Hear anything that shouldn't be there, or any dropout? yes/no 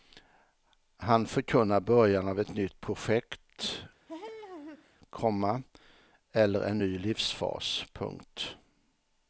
yes